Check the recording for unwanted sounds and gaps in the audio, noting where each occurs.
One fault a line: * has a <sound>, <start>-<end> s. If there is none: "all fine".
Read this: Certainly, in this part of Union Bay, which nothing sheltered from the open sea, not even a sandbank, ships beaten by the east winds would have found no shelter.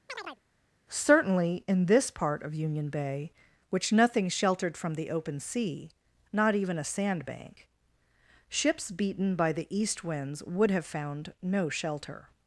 * has a chirp, 0.1-0.4 s